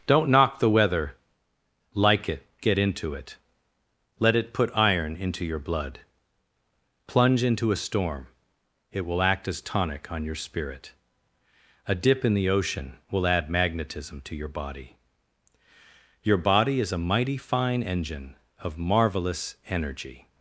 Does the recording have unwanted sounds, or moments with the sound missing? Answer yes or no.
no